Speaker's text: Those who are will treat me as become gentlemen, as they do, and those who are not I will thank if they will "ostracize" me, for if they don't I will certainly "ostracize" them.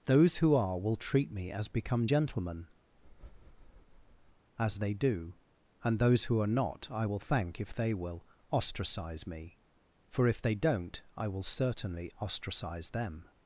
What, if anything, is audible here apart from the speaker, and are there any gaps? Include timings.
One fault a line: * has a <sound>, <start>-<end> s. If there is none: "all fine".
* has a breath, 2.9-4.5 s